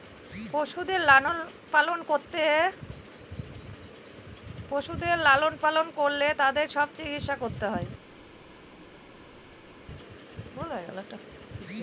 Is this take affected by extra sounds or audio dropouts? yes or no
no